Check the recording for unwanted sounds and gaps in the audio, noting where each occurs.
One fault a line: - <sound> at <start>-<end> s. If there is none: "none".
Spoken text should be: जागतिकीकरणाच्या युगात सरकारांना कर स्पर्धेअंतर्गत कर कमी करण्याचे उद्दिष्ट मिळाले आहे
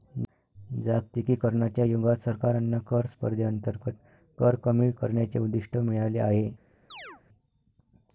- chirp at 6.9-7.2 s